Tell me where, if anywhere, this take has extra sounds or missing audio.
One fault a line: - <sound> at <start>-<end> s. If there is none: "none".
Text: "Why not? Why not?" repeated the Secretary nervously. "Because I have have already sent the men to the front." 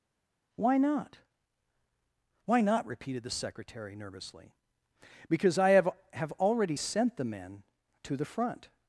none